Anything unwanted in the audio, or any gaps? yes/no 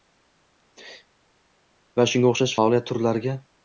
no